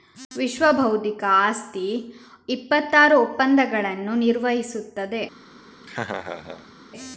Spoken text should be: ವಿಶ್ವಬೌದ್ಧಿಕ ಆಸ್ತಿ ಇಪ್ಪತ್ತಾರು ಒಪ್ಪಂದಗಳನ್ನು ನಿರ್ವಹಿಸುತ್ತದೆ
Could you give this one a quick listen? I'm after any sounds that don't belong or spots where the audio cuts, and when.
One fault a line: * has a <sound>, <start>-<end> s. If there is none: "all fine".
* has a laugh, 5.8-6.7 s